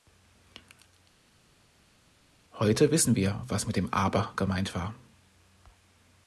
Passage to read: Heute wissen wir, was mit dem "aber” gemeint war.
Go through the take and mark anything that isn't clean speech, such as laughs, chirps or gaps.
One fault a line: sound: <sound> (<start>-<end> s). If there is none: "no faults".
no faults